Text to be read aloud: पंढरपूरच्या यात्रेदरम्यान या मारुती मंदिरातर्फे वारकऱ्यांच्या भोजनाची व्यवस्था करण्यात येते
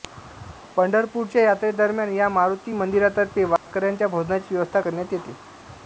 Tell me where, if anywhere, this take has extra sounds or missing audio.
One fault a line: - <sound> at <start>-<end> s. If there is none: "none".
- dropout at 3.6-3.7 s